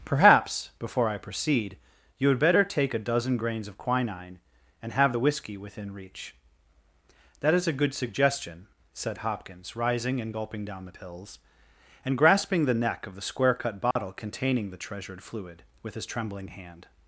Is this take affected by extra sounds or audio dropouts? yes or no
yes